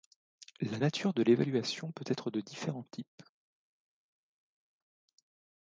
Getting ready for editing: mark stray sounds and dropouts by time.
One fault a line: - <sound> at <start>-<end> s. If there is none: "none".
none